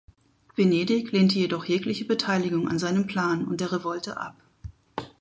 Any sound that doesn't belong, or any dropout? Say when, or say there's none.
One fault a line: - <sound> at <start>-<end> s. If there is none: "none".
none